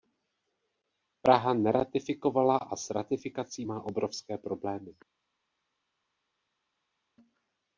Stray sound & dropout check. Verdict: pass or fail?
pass